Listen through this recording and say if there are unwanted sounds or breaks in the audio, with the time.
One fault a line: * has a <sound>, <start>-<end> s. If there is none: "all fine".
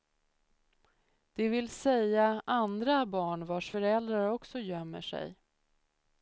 all fine